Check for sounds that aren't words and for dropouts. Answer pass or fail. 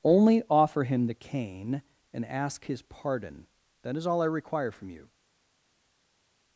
pass